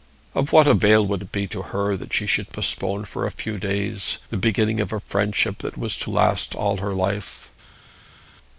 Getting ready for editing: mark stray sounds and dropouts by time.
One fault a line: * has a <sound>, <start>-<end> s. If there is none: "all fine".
all fine